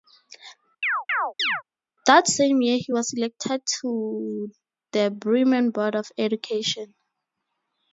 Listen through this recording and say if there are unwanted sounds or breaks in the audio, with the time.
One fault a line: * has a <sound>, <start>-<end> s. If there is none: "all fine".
* has a chirp, 0.8-1.6 s